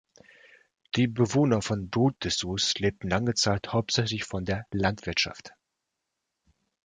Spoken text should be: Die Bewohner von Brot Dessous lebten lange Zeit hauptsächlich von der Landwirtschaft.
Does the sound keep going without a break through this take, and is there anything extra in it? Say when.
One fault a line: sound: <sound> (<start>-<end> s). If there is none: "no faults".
no faults